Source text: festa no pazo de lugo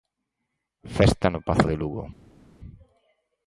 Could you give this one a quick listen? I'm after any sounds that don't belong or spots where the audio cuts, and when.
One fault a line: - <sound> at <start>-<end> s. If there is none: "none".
none